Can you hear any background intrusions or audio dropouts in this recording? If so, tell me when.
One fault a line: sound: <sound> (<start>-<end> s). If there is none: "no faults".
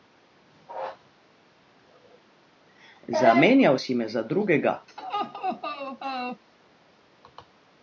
sound: laugh (4.9-6.4 s)